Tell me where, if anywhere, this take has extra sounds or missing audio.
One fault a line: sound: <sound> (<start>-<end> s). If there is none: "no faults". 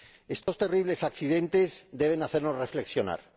sound: dropout (0.4-0.5 s)